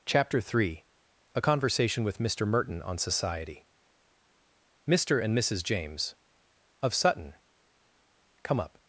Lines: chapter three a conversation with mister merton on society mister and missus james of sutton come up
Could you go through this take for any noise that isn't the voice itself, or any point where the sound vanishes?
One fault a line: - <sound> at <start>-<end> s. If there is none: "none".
none